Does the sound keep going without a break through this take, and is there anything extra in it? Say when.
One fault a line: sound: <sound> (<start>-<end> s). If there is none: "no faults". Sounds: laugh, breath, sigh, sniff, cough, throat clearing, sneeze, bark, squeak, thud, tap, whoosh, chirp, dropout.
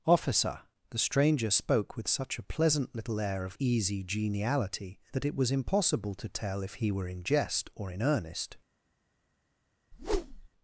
sound: whoosh (9.9-10.5 s)